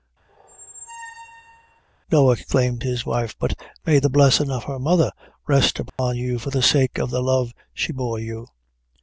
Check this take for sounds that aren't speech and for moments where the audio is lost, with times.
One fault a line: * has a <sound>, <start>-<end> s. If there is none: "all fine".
* has a squeak, 0.3-1.8 s
* has a dropout, 5.9-6.0 s